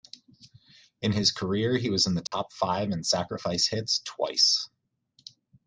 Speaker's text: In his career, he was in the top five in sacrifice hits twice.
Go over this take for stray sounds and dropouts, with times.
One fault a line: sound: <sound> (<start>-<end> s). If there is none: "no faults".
sound: dropout (2.3-2.3 s)